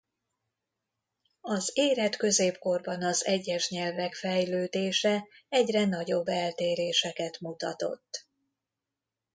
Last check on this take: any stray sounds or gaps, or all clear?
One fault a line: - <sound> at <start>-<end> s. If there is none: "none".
none